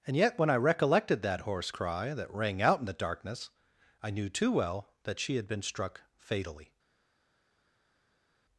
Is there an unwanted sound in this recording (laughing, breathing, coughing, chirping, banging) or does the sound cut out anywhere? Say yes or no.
no